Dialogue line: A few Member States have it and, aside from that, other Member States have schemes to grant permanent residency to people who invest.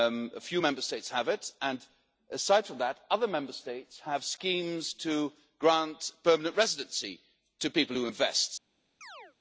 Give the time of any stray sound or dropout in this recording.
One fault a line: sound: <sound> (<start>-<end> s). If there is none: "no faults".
sound: chirp (9.0-9.4 s)